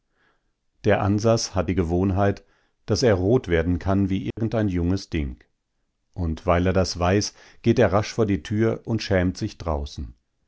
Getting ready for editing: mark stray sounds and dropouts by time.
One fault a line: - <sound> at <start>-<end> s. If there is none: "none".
- dropout at 4.3-4.4 s